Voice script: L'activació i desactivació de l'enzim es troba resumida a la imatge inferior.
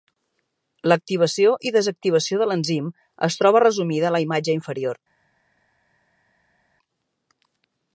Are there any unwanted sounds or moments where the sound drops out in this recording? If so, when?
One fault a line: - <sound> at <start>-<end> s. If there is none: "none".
none